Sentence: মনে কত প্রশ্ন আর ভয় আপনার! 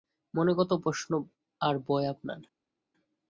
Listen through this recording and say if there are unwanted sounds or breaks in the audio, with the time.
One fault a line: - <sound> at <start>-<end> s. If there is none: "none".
none